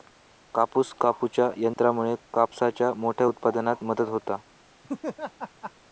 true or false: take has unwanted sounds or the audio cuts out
true